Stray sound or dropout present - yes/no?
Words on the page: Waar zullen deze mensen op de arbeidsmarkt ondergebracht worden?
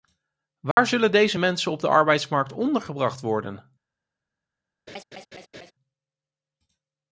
yes